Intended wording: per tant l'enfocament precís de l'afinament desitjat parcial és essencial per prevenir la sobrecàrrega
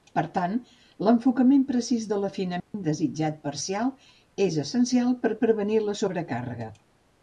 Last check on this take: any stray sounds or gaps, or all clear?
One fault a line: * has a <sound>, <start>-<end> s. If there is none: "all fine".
* has a dropout, 2.6-2.7 s